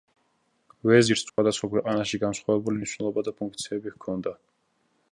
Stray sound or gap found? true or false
true